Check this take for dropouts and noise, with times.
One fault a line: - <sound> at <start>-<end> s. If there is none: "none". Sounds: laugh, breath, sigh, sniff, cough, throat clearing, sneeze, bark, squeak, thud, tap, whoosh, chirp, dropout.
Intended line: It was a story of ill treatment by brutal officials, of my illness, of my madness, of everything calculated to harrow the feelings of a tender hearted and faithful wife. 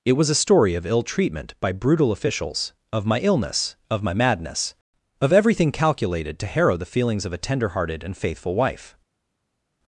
none